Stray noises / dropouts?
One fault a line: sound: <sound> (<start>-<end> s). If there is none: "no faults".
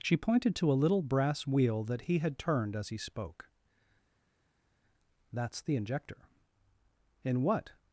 no faults